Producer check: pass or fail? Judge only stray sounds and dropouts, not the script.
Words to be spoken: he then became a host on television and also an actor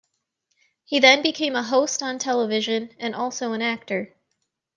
pass